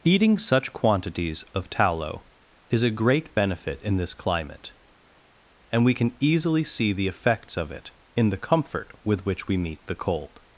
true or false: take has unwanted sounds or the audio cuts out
false